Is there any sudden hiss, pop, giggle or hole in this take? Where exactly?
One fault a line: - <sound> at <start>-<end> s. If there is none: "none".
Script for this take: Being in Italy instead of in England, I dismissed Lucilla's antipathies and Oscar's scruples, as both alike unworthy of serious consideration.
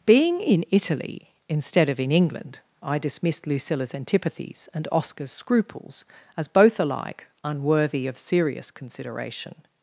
none